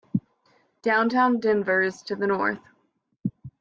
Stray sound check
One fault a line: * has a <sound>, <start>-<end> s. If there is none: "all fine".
all fine